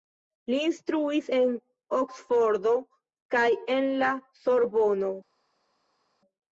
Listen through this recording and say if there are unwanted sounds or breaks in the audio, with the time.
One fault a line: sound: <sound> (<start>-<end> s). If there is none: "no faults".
no faults